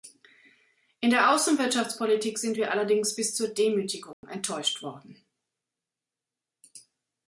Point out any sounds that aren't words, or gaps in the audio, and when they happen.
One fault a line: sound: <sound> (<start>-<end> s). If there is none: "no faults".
sound: dropout (4.1-4.2 s)